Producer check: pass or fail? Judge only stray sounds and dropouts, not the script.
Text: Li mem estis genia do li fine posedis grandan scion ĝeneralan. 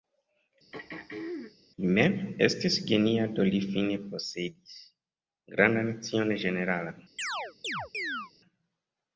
fail